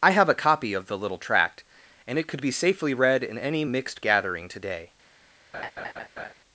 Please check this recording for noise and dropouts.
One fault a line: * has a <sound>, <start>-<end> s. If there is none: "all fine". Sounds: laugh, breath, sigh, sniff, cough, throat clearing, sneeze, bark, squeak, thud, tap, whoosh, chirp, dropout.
* has a laugh, 5.5-6.3 s